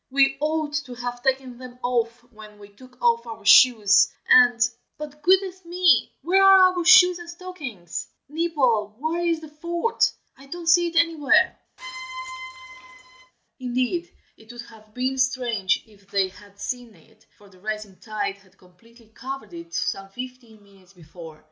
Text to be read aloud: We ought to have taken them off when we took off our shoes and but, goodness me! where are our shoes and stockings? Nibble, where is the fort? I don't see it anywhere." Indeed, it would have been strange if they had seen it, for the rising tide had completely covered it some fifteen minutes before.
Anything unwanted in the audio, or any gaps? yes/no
yes